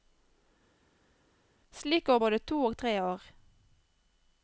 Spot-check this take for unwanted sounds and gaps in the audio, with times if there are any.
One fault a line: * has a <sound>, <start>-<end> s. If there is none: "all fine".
all fine